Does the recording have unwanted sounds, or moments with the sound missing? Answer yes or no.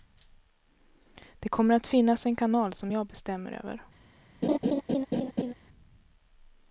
yes